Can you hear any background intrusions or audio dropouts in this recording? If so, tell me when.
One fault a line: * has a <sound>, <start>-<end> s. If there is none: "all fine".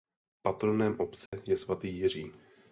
* has a dropout, 1.3-1.3 s